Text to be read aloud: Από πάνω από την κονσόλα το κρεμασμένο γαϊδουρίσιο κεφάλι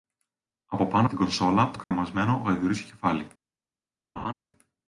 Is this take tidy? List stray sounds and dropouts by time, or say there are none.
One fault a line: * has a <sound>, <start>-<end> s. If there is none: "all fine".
* has a dropout, 1.8-1.9 s
* has a laugh, 4.2-4.3 s